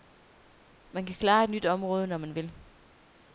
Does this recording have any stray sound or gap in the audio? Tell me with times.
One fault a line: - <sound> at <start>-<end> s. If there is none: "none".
none